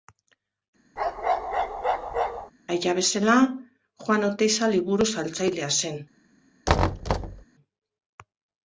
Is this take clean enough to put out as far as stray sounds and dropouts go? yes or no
no